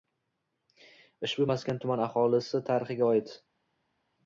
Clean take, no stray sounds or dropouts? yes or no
yes